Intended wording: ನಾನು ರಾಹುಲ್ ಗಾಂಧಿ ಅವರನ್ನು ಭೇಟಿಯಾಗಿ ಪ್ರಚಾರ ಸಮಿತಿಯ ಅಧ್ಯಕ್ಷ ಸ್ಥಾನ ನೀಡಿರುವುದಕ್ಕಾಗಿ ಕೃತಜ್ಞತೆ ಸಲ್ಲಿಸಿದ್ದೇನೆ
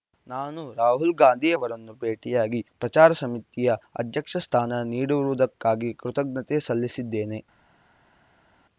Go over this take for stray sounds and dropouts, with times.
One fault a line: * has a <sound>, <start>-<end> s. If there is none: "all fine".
all fine